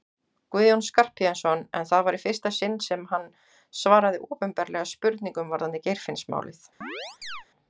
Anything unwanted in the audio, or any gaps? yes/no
yes